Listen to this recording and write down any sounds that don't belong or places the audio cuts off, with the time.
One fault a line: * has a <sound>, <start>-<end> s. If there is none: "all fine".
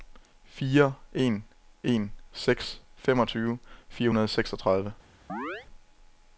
* has a chirp, 5.3-5.7 s